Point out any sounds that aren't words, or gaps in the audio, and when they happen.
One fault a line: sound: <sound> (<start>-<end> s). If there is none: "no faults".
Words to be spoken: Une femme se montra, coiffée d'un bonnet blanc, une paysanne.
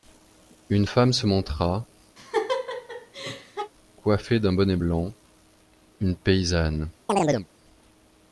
sound: laugh (2.2-3.7 s)
sound: chirp (7.1-7.5 s)